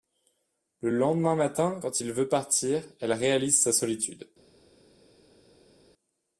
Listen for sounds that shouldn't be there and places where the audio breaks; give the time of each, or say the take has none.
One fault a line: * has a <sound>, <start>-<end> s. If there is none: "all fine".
all fine